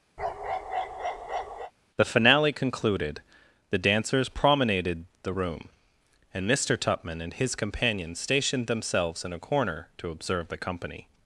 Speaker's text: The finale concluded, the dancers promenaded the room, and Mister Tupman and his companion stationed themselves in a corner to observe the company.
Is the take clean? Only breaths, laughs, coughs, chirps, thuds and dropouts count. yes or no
no